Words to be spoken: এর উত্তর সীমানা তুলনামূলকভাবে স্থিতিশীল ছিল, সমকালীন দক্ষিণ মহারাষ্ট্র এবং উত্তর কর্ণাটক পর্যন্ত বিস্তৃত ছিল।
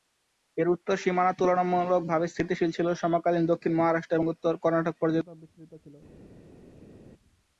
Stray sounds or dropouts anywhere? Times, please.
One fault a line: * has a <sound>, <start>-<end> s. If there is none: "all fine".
all fine